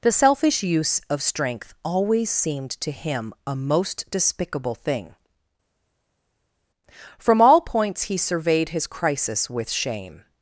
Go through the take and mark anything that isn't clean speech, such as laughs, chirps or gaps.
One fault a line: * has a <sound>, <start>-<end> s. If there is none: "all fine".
all fine